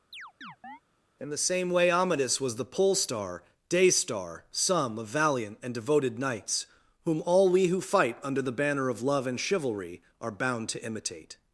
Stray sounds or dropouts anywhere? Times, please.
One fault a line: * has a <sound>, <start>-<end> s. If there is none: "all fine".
* has a chirp, 0.1-0.8 s